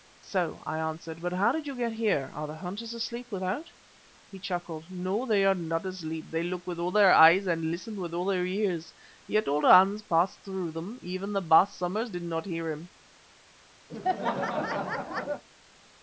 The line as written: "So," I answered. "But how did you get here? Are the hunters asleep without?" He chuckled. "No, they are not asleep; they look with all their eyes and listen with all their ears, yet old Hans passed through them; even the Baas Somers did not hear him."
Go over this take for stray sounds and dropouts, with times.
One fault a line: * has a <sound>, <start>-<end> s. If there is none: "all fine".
* has a laugh, 13.9-15.4 s